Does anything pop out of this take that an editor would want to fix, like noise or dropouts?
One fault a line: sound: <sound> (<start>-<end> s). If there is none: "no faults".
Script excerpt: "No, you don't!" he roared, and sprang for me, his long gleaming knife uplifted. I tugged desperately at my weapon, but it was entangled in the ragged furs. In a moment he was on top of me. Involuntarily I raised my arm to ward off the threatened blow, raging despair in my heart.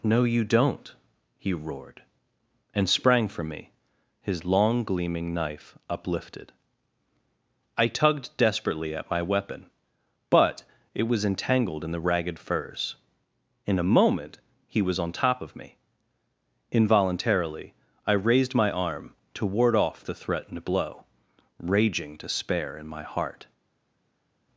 no faults